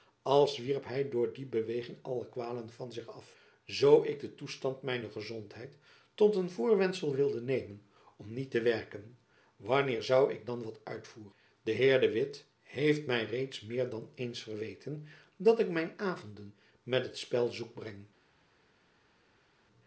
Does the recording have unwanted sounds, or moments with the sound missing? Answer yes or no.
no